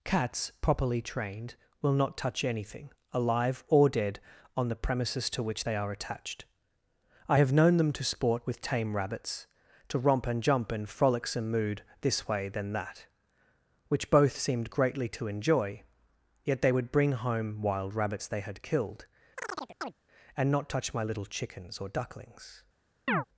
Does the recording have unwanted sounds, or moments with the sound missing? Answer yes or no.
yes